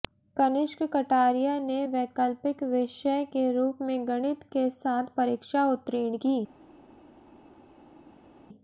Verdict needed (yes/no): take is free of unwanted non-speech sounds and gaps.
yes